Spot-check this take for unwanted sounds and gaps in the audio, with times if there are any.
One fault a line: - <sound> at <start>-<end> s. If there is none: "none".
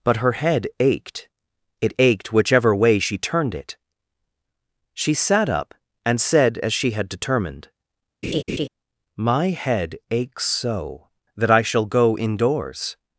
- laugh at 8.2-8.7 s